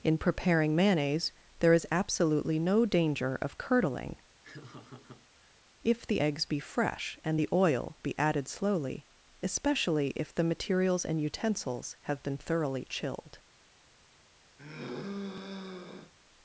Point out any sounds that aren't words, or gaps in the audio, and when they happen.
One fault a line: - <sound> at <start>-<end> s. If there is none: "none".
- laugh at 4.4-5.6 s
- sigh at 14.6-16.1 s